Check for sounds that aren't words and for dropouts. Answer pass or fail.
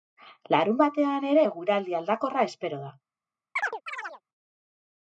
fail